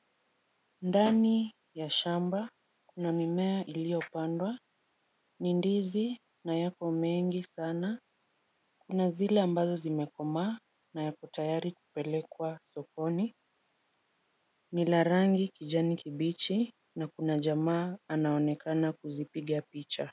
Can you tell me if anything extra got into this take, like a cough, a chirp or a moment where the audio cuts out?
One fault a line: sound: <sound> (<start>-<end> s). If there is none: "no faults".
no faults